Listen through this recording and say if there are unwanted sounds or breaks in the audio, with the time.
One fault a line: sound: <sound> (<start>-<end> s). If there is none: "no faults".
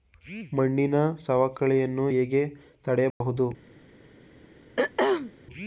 sound: dropout (3.1-3.2 s)
sound: throat clearing (4.8-5.3 s)